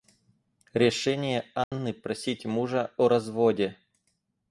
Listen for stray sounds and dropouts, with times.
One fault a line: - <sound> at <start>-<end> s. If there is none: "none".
- dropout at 1.6-1.7 s